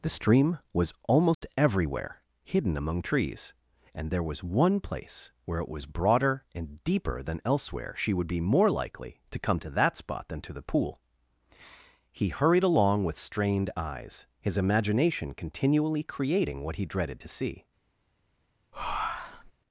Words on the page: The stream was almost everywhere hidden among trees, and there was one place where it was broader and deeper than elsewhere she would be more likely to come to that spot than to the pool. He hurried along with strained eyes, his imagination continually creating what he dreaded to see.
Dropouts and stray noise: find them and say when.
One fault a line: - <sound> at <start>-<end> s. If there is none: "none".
- dropout at 1.3-1.4 s
- breath at 18.7-19.5 s